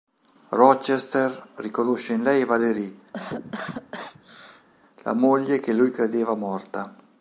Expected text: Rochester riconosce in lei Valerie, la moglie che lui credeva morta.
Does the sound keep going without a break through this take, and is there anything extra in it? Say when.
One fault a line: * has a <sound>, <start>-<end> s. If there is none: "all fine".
* has a cough, 3.1-4.7 s